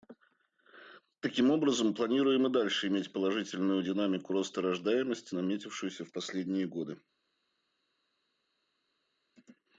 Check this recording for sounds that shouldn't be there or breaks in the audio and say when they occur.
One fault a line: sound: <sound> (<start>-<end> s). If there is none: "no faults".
no faults